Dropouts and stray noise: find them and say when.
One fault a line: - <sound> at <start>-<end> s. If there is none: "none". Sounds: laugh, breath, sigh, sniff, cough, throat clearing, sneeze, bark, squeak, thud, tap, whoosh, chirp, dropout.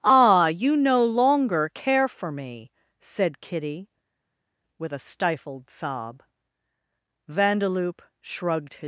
none